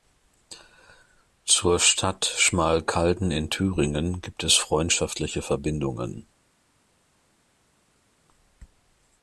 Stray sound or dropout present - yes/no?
no